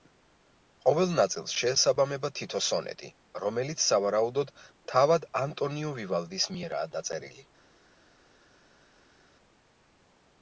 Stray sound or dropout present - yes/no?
no